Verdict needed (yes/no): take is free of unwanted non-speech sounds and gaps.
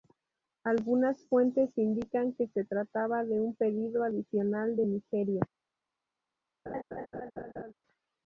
no